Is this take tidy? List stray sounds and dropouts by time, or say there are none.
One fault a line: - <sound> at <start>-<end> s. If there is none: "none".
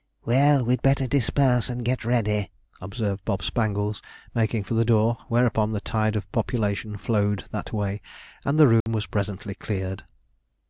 - dropout at 8.8-8.9 s